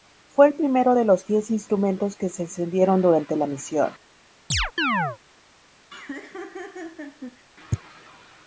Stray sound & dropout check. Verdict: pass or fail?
fail